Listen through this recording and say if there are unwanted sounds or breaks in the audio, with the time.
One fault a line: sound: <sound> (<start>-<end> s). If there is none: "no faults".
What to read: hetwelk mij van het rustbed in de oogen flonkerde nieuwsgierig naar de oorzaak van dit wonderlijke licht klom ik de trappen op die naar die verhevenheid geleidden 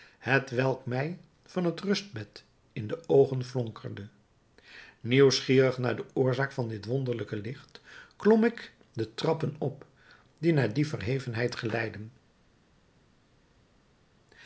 no faults